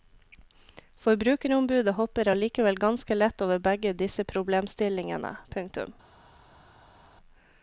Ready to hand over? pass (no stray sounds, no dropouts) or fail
pass